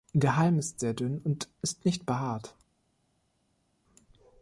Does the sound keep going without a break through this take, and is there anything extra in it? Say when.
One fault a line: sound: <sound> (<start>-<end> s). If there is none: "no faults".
no faults